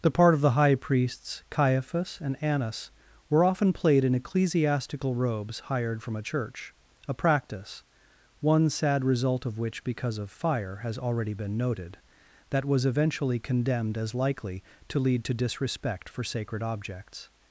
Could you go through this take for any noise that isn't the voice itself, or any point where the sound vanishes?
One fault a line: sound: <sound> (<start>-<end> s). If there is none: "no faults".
no faults